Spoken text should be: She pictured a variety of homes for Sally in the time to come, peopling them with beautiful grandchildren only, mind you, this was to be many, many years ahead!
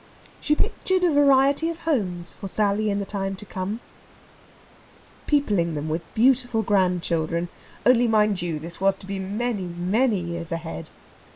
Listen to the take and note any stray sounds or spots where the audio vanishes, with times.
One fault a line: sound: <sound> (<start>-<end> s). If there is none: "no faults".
no faults